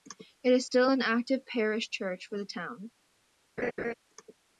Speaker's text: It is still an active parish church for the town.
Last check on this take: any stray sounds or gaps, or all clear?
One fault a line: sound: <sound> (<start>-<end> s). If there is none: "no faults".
sound: laugh (3.6-3.9 s)